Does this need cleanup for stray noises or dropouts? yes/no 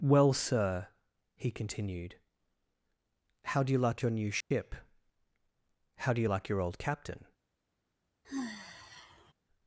yes